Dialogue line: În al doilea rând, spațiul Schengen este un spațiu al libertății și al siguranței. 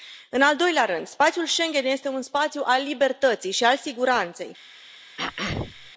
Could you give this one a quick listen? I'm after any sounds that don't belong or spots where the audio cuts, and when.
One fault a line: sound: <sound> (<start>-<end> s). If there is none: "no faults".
sound: throat clearing (5.2-5.9 s)